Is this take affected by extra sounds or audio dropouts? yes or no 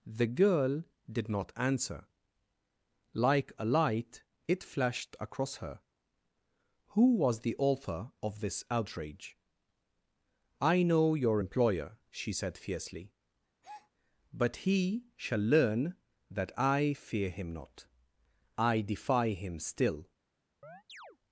yes